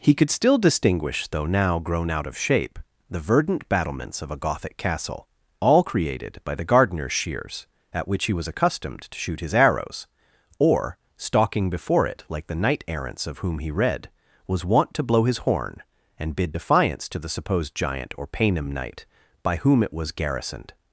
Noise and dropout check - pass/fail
pass